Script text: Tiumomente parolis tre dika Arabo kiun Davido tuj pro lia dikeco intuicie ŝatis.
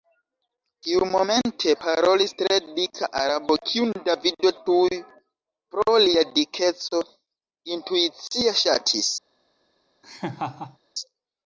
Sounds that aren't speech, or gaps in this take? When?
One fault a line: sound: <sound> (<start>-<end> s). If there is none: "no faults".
sound: laugh (10.0-10.8 s)